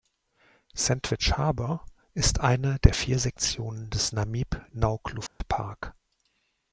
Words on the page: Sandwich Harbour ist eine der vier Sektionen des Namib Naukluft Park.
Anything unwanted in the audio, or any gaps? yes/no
yes